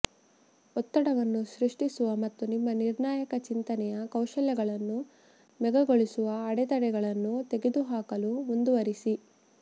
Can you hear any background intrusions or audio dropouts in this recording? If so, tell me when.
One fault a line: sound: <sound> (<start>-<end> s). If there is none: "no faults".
no faults